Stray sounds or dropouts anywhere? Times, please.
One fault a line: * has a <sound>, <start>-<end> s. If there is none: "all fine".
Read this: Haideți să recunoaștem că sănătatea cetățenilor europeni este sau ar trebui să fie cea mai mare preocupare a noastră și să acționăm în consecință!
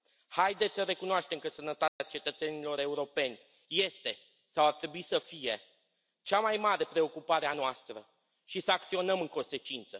* has a dropout, 1.9-2.0 s